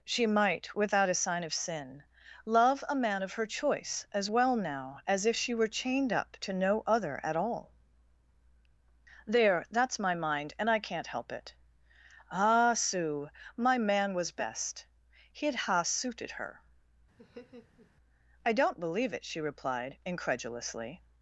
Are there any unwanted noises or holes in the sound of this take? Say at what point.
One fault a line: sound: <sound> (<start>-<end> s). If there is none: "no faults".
sound: laugh (17.2-17.9 s)